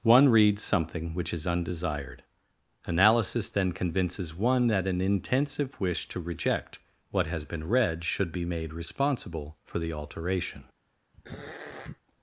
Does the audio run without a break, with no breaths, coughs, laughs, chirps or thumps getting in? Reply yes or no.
no